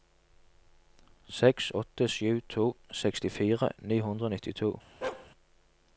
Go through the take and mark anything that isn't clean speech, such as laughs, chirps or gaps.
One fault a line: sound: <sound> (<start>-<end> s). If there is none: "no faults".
sound: bark (5.0-5.3 s)